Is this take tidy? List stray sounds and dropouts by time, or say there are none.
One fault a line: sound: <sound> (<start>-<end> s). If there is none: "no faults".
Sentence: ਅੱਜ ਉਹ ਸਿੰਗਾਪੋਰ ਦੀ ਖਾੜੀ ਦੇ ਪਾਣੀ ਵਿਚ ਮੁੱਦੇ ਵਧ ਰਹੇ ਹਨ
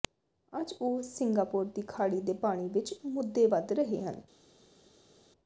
no faults